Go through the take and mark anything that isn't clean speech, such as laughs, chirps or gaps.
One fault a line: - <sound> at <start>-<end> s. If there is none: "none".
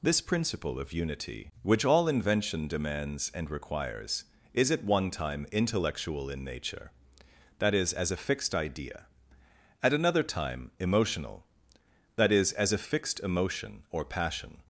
none